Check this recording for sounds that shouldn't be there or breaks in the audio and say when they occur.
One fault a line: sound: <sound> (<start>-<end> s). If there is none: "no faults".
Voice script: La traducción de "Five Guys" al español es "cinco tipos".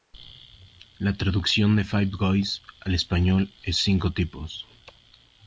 no faults